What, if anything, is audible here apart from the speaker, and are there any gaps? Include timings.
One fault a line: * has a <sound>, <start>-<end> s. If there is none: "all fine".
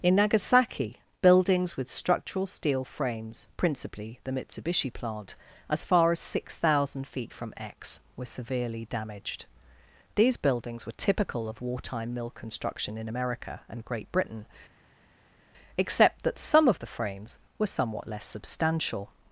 all fine